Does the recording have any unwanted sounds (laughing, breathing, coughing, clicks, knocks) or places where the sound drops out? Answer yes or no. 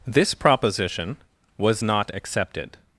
no